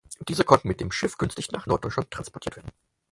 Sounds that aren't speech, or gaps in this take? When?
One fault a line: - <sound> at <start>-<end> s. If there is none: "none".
none